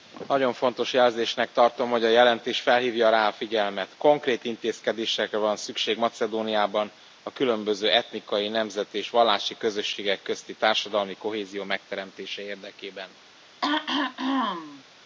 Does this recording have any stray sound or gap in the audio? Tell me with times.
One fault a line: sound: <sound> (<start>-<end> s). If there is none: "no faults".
sound: throat clearing (13.6-14.8 s)